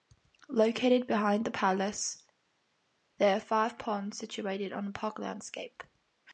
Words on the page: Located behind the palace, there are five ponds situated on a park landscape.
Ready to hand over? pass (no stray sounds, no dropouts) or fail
pass